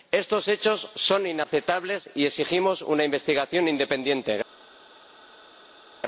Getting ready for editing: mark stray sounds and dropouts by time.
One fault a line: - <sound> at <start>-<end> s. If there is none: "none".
none